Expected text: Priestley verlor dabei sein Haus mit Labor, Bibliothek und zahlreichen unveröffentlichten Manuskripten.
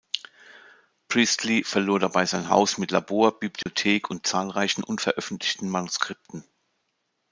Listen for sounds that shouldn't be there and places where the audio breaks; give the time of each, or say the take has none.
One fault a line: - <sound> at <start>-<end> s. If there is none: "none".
- dropout at 3.6-3.7 s